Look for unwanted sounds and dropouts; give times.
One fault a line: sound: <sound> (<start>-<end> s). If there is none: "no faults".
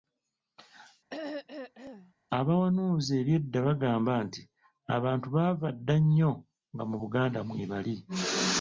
sound: throat clearing (1.1-2.1 s)